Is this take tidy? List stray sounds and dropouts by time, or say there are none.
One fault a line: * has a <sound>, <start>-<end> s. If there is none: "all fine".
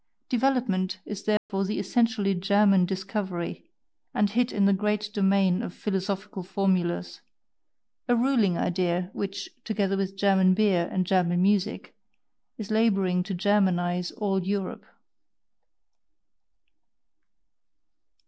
* has a dropout, 1.4-1.5 s